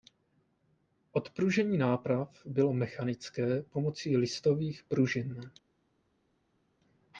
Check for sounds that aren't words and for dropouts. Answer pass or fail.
pass